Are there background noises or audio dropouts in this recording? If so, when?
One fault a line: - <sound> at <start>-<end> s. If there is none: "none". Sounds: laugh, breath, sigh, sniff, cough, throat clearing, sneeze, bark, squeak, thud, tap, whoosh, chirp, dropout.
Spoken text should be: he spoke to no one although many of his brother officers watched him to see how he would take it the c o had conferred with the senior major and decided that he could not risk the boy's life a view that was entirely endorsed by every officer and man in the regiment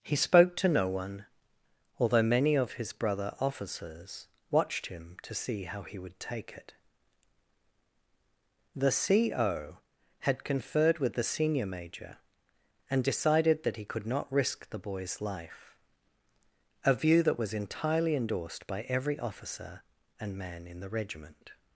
none